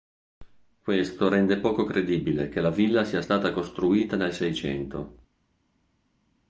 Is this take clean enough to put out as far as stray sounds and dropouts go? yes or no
yes